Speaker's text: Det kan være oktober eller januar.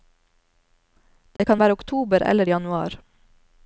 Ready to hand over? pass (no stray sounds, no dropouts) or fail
fail